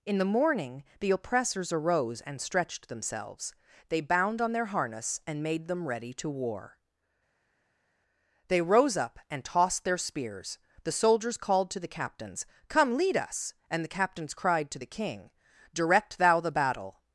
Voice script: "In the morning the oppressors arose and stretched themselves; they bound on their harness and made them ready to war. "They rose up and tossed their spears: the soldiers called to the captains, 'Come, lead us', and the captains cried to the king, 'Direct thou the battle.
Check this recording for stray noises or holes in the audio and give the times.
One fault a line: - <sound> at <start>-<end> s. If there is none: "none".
none